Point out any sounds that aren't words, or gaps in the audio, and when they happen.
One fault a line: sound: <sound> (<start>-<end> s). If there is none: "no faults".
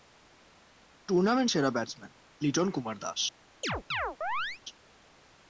sound: chirp (3.6-4.6 s)